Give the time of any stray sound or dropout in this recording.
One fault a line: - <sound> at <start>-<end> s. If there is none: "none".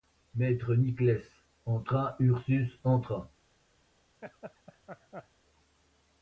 - laugh at 4.2-5.3 s